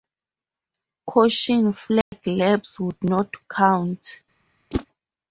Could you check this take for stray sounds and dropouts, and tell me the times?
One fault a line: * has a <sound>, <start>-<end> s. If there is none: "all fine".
* has a dropout, 2.0-2.1 s
* has a whoosh, 4.7-4.9 s